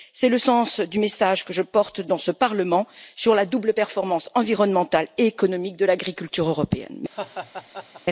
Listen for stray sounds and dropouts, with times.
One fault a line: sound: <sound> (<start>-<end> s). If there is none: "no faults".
sound: laugh (7.1-8.0 s)